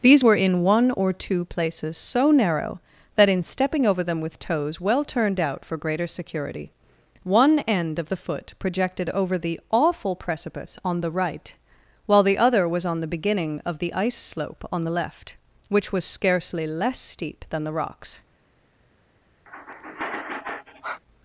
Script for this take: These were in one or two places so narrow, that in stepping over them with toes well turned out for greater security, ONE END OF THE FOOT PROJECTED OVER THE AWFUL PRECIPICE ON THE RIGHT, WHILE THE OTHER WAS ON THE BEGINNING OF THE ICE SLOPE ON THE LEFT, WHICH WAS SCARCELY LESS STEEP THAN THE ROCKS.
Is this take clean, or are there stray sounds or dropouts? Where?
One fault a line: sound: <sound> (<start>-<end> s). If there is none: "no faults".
sound: sigh (19.5-21.0 s)